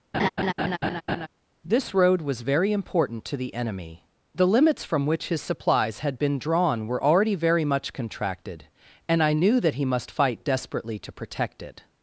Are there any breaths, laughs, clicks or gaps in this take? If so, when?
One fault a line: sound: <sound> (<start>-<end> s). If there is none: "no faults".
sound: laugh (0.1-1.3 s)